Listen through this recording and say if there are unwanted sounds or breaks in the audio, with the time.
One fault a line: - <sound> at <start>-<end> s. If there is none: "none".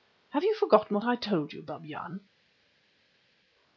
none